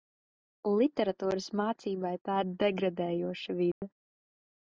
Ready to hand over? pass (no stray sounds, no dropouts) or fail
fail